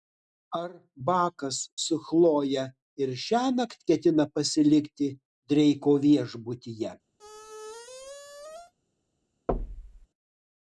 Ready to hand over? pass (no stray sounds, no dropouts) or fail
fail